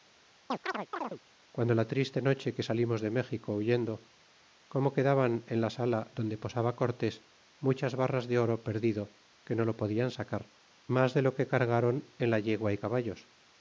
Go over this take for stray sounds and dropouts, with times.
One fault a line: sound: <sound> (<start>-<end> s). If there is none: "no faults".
sound: chirp (0.5-1.2 s)